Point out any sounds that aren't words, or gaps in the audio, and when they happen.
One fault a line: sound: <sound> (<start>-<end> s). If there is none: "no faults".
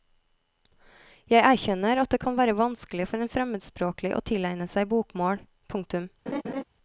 sound: laugh (6.3-6.6 s)